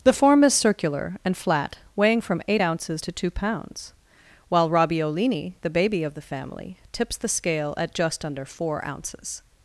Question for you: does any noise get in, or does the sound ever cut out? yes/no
no